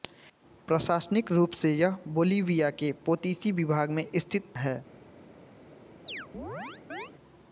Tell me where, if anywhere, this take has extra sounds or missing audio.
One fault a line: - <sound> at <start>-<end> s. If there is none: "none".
- chirp at 6.1-7.1 s